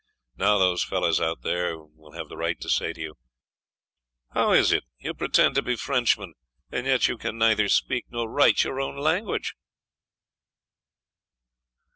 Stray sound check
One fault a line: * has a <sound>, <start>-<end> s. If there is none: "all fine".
all fine